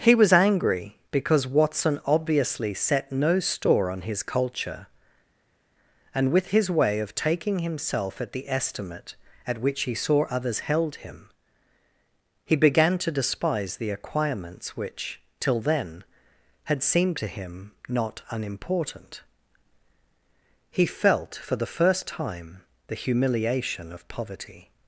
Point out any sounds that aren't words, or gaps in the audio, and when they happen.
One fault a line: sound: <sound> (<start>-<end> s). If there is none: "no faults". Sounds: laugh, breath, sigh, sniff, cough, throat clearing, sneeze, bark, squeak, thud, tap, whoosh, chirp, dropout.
no faults